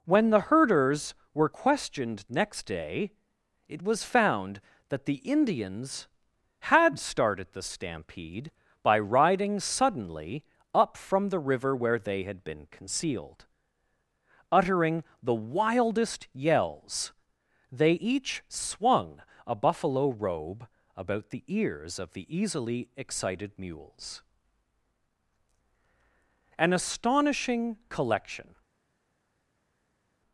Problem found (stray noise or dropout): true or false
false